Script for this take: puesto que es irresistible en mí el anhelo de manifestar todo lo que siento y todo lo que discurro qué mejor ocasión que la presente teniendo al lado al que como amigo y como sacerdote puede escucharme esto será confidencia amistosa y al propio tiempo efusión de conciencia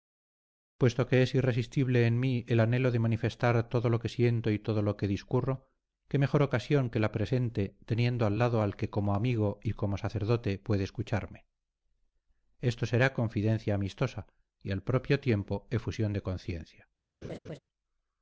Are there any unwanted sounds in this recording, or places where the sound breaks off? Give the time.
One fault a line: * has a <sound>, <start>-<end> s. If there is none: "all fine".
* has a laugh, 17.2-17.6 s